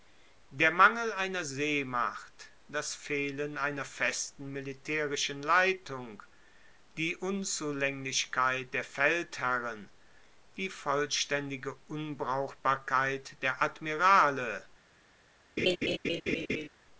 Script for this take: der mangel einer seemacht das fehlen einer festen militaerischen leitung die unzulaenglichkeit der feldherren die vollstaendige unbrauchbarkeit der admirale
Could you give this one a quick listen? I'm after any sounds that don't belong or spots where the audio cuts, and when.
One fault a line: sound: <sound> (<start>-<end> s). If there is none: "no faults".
sound: laugh (15.6-16.7 s)